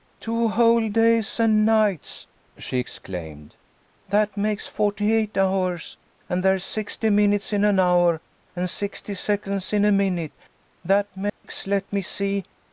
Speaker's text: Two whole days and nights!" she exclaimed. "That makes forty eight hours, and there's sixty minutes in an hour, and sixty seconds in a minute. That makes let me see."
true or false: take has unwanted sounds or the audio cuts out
true